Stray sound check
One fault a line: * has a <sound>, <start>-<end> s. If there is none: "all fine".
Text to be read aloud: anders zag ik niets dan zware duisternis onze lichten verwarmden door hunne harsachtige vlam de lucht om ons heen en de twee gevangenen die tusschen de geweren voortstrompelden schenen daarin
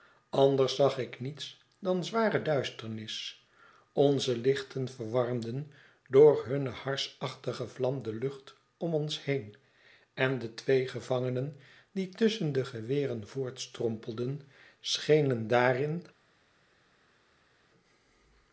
all fine